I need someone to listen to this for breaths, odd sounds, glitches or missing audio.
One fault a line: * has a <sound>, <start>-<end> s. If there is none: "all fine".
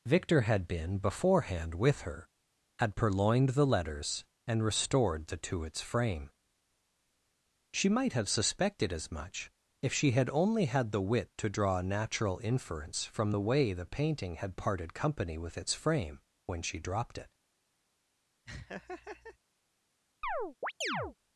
* has a laugh, 18.5-19.4 s
* has a chirp, 20.2-21.2 s